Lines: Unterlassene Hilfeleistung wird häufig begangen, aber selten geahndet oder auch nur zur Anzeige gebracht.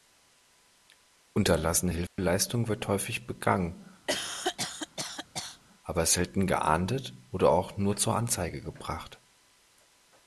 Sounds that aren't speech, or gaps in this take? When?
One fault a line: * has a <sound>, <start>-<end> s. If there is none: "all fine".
* has a dropout, 2.1-2.2 s
* has a cough, 4.1-5.6 s